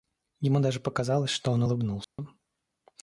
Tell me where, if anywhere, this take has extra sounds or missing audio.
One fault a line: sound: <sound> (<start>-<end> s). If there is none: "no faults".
sound: dropout (2.0-2.2 s)